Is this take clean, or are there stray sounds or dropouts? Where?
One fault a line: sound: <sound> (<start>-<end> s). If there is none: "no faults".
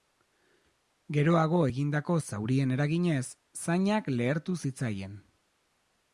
no faults